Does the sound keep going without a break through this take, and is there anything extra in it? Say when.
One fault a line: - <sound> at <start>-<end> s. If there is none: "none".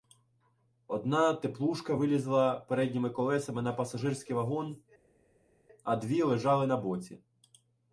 none